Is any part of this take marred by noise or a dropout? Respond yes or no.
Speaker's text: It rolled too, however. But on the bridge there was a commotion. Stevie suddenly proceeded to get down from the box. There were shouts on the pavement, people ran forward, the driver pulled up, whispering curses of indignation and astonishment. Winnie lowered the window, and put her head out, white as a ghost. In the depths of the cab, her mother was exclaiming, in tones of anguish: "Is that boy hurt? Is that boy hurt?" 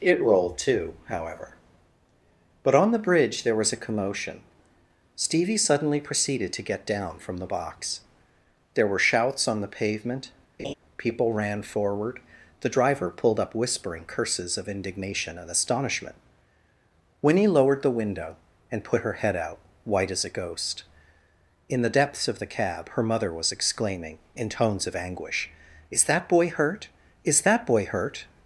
yes